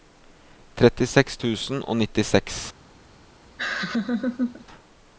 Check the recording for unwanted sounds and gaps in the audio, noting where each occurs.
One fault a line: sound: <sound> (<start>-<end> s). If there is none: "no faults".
sound: laugh (3.6-4.7 s)